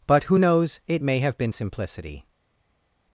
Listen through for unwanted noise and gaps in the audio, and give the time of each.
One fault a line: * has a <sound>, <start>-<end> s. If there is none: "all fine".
all fine